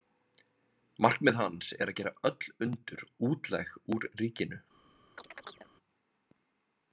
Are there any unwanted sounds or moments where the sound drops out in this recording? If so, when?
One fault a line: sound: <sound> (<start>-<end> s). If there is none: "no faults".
sound: chirp (5.2-5.7 s)